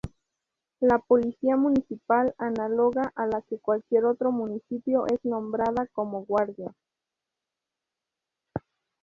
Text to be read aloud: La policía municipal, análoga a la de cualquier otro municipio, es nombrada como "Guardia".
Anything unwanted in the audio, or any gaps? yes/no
no